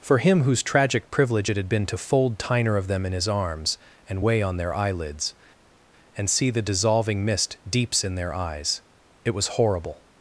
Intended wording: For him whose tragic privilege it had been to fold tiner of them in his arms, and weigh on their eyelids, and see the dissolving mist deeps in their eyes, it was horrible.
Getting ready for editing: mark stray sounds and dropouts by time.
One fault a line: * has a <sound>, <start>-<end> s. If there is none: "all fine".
all fine